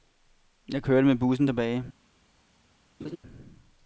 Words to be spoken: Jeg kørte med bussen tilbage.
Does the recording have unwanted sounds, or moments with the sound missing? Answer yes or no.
yes